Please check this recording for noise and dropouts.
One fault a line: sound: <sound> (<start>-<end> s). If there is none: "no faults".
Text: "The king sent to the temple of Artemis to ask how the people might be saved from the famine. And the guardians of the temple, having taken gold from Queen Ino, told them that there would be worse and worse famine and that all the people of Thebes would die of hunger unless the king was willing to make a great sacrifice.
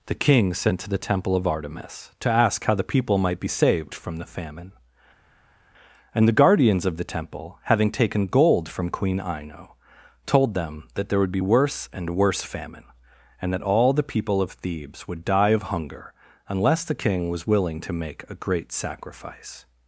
no faults